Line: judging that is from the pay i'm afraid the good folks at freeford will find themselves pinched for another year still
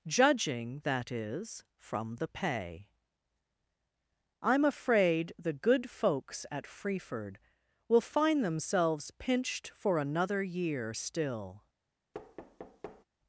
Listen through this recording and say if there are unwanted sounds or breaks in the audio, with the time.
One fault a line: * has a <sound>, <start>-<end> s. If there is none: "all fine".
* has a thud, 12.1-13.0 s